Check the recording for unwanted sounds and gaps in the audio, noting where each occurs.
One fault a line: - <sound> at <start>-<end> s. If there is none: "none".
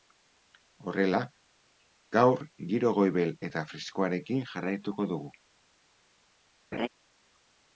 - laugh at 6.7-6.9 s